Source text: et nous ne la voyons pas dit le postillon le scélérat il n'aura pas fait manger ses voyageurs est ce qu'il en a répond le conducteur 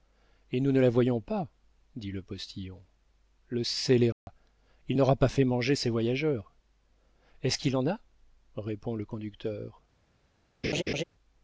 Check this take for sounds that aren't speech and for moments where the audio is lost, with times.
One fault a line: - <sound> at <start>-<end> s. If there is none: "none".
- dropout at 4.1-4.3 s
- laugh at 10.6-11.0 s